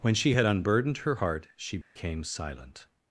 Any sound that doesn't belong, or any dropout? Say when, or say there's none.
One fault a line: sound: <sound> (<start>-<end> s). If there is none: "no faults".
sound: dropout (1.8-2.0 s)